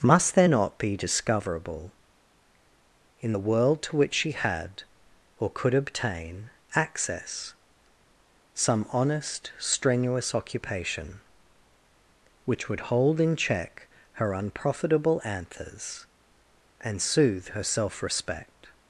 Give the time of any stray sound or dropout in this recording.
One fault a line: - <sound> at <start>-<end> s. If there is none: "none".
none